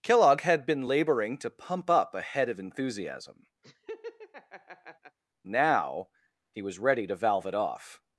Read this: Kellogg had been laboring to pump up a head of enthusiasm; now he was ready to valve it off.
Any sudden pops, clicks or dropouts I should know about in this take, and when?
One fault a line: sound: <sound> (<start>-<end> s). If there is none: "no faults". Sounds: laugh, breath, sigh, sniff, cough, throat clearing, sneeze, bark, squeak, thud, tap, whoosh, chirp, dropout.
sound: laugh (3.6-5.2 s)